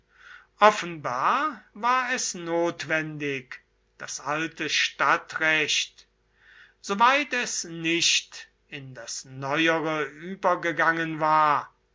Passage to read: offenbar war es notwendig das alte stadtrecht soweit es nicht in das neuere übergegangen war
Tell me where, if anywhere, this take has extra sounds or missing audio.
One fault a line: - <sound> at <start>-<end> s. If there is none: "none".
none